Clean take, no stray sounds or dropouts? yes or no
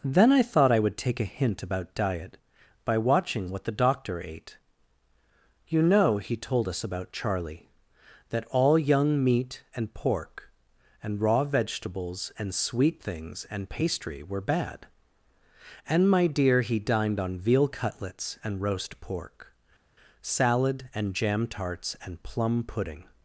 yes